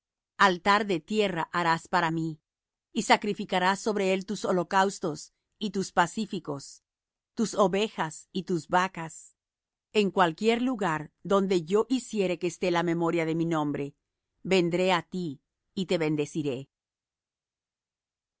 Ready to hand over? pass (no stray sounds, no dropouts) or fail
pass